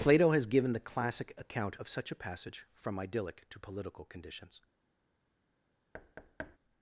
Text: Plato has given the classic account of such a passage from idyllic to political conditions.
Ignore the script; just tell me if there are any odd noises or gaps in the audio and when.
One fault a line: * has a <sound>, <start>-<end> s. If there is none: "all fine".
* has a thud, 5.9-6.6 s